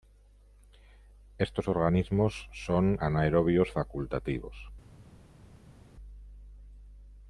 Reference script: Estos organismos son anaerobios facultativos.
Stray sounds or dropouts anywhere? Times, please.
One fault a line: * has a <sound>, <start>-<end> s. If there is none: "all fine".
all fine